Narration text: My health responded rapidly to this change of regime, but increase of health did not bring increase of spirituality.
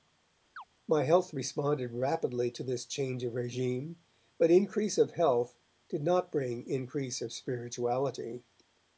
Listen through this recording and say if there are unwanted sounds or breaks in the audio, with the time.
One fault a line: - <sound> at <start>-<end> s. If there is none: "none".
- chirp at 0.6-0.6 s